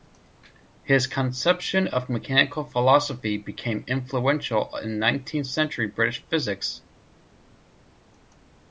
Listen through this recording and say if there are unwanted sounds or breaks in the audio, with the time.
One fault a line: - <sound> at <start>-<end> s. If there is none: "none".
none